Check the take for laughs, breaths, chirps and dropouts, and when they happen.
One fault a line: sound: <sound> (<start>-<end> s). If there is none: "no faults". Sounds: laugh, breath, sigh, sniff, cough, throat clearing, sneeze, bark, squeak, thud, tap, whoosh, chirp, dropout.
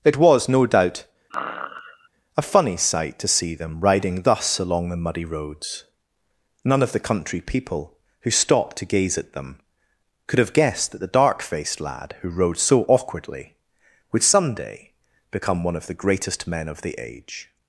sound: sneeze (1.3-2.1 s)